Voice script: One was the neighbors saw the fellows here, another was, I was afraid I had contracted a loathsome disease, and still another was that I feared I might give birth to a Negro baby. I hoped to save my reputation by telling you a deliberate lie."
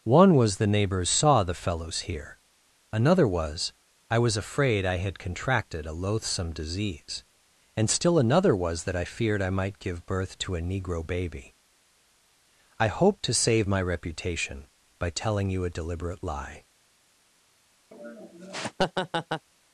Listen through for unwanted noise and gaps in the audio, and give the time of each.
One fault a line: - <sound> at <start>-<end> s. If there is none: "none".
- laugh at 17.9-19.5 s